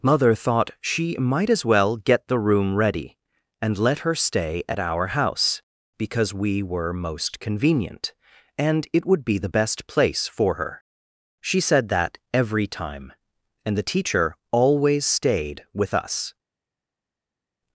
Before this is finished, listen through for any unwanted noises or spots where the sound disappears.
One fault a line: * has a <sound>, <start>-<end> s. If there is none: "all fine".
all fine